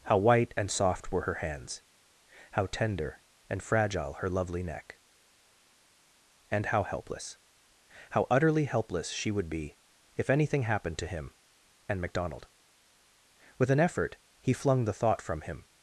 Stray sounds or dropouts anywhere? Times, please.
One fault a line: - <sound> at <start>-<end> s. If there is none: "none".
none